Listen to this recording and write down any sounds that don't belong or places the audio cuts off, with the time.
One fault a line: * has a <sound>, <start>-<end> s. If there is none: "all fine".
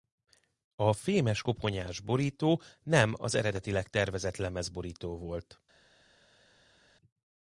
all fine